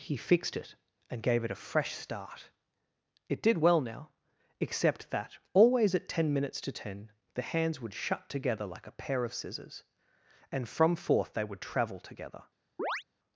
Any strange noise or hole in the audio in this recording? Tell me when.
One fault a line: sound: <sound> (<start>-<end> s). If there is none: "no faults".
sound: chirp (12.8-13.0 s)